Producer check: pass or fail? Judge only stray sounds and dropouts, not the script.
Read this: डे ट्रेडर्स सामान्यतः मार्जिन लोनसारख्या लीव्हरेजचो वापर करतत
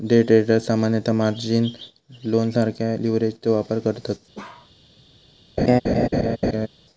fail